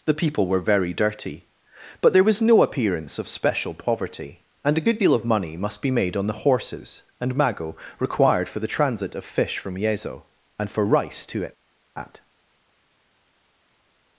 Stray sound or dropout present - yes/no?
no